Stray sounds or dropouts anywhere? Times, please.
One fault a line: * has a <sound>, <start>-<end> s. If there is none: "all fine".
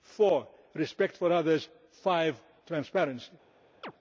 * has a chirp, 3.8-3.9 s